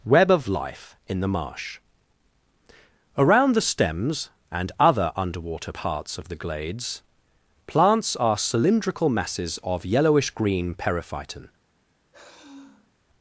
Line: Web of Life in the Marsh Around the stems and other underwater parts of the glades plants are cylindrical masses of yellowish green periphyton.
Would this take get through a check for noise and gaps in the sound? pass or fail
fail